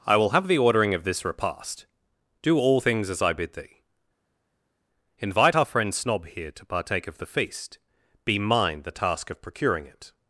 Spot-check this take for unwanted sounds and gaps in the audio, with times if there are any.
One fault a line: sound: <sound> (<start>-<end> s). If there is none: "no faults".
no faults